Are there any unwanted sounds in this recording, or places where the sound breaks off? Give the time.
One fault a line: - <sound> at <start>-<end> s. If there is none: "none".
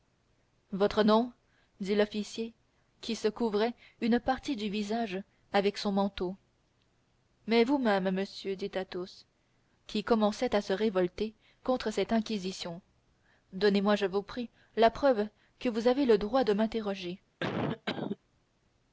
- cough at 17.4-18.2 s